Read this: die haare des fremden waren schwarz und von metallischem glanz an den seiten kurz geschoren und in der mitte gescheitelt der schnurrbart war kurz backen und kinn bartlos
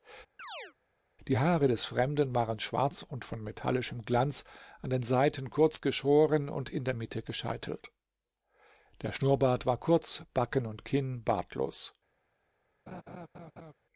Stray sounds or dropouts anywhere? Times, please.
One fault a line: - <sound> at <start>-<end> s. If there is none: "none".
- chirp at 0.4-0.7 s
- laugh at 12.9-13.7 s